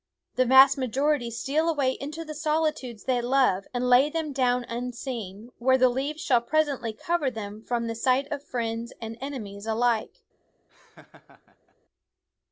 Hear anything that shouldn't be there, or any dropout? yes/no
yes